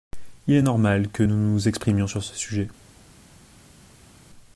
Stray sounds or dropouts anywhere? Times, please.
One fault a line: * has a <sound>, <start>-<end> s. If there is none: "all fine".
all fine